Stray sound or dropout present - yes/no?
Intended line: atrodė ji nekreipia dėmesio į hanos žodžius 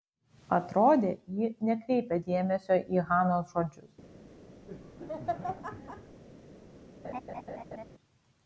yes